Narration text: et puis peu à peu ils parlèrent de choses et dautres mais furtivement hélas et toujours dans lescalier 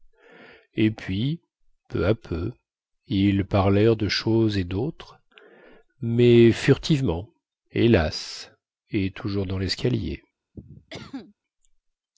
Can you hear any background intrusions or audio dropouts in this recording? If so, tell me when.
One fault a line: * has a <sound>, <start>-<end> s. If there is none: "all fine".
* has a cough, 10.5-11.3 s